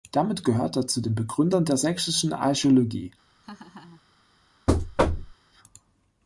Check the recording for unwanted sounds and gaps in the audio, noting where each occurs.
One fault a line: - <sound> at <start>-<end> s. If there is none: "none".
- laugh at 3.4-4.0 s
- thud at 4.7-5.3 s